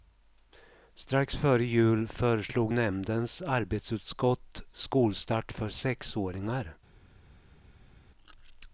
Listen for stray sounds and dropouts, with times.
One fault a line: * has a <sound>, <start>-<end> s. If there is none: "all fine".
all fine